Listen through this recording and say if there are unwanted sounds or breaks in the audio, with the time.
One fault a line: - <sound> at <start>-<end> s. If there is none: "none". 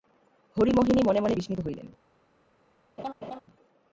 - laugh at 3.0-3.4 s